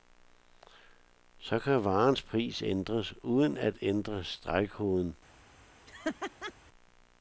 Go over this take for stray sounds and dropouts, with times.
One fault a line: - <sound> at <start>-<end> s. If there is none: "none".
- laugh at 5.9-6.5 s